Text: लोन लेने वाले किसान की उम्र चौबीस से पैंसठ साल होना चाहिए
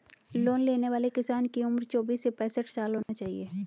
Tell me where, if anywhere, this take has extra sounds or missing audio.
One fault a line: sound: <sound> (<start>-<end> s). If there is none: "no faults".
sound: dropout (3.0-3.1 s)